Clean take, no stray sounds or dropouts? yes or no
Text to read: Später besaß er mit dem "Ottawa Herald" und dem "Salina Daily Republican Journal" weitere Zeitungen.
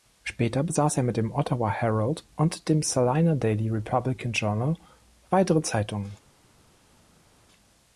yes